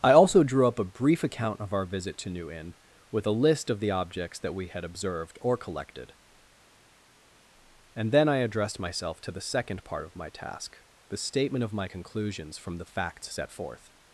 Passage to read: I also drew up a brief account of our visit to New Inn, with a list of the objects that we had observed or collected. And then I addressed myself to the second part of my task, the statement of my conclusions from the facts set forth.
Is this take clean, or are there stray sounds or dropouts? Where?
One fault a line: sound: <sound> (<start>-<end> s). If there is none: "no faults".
no faults